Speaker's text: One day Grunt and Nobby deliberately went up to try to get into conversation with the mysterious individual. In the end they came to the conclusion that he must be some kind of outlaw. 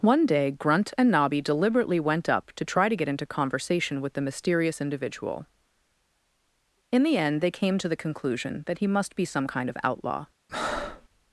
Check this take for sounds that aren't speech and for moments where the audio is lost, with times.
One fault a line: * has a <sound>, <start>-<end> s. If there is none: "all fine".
* has a breath, 10.5-11.1 s